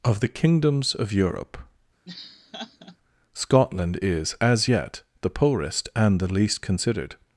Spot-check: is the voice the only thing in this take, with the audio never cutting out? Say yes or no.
no